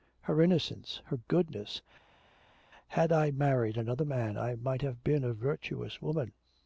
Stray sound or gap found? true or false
false